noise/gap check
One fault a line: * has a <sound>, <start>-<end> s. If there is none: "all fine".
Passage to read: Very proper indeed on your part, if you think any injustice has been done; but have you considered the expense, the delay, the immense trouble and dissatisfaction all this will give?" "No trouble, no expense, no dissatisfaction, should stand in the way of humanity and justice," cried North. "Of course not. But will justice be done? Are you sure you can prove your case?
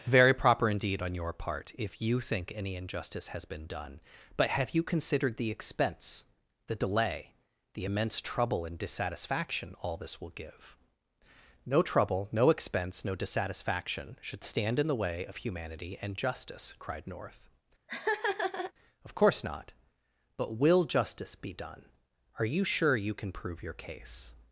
* has a laugh, 17.9-18.7 s